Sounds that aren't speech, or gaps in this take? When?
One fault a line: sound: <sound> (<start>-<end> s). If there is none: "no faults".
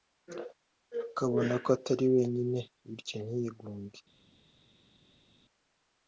no faults